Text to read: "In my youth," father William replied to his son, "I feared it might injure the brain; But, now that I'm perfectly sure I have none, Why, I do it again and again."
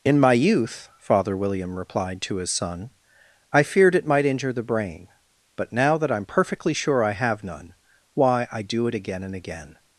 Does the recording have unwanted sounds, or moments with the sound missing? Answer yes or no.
no